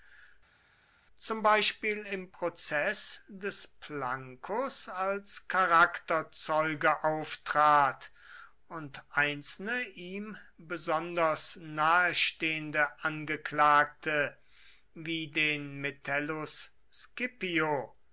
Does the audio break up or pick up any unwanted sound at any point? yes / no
no